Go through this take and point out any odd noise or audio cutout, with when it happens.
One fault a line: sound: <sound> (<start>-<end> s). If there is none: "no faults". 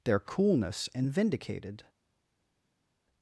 no faults